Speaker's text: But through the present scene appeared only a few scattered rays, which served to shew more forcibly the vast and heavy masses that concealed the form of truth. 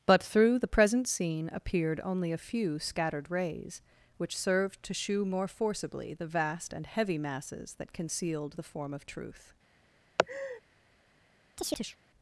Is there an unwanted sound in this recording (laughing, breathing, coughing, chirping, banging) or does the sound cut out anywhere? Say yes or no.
yes